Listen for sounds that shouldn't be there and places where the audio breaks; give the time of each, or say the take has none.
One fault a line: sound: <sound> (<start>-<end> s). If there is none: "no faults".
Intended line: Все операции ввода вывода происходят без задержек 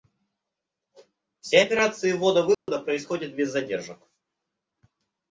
sound: dropout (2.5-2.7 s)